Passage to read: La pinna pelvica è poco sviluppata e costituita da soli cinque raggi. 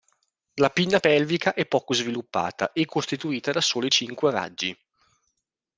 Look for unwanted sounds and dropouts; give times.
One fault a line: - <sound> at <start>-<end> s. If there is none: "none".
none